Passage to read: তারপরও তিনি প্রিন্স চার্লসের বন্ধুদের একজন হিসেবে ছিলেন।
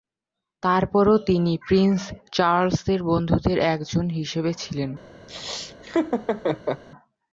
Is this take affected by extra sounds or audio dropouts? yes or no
yes